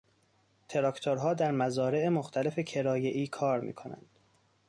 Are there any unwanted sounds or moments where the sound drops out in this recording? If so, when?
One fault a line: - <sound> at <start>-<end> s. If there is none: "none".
none